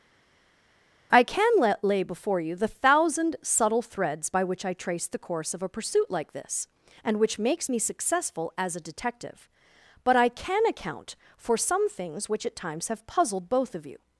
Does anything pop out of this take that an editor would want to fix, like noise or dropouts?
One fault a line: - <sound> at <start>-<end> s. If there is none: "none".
none